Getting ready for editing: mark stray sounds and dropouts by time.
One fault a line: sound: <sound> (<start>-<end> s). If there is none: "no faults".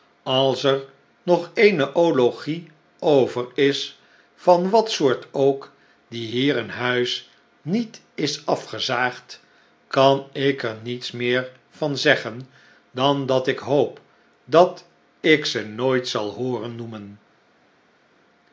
no faults